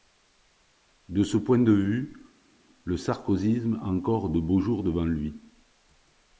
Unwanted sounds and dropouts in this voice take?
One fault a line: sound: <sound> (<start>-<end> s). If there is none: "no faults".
no faults